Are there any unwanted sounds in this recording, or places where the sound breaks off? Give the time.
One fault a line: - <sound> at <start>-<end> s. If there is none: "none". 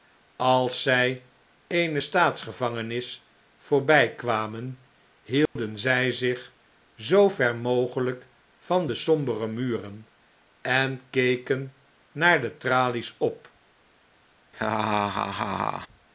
- dropout at 5.5-5.6 s
- laugh at 14.5-15.9 s